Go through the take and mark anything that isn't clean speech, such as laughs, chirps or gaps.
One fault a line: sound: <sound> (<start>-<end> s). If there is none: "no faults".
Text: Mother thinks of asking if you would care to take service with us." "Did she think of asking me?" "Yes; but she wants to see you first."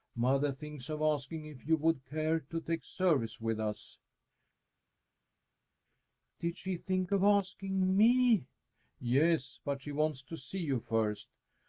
no faults